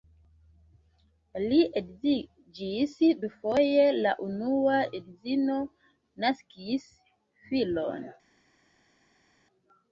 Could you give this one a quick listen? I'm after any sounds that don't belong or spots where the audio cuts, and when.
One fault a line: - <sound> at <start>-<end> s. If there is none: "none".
none